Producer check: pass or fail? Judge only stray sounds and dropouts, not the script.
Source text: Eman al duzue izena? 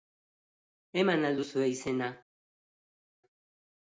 pass